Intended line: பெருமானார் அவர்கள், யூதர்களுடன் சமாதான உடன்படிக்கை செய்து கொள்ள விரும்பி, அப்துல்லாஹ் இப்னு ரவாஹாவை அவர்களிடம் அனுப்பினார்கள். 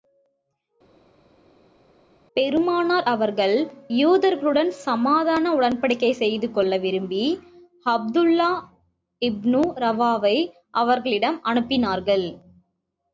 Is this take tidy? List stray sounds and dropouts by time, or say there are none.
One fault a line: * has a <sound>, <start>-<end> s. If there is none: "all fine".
all fine